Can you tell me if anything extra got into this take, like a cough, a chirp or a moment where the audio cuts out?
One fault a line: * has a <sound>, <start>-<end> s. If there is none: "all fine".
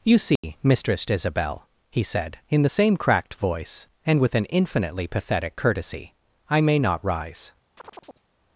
* has a dropout, 0.4-0.4 s
* has a chirp, 7.8-8.3 s